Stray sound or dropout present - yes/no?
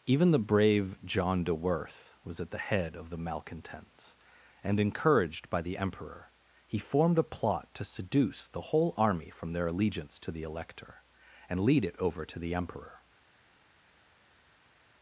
no